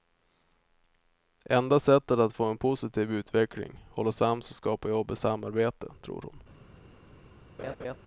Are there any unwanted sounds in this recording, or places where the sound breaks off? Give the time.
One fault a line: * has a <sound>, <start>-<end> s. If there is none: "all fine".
* has a laugh, 7.6-8.0 s